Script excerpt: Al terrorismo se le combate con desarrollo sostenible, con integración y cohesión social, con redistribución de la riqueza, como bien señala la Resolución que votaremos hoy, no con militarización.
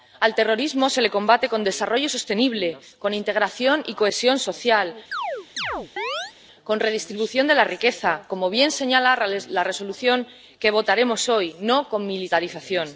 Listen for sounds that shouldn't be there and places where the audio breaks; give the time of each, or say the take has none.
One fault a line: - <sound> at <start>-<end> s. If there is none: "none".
- chirp at 5.1-6.3 s